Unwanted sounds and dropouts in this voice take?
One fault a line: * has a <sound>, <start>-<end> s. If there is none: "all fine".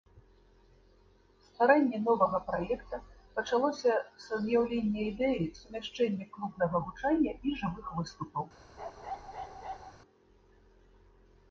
* has a bark, 8.8-9.9 s